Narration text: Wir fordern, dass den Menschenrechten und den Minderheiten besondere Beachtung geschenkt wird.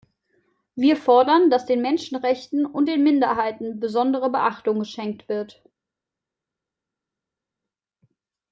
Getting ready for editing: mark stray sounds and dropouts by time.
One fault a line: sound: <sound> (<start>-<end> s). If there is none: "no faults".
no faults